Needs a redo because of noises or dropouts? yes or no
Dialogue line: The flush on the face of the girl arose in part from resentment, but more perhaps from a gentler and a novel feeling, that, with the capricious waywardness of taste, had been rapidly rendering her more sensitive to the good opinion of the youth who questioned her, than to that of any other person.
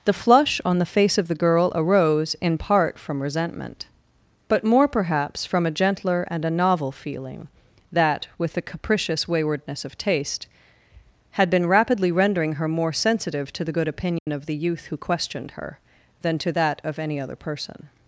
yes